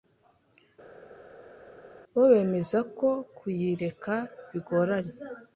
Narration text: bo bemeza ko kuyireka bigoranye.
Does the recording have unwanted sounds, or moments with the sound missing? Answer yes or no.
no